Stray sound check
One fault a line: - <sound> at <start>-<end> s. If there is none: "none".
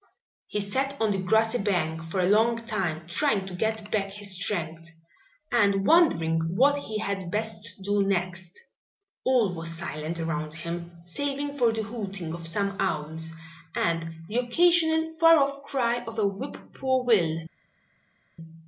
none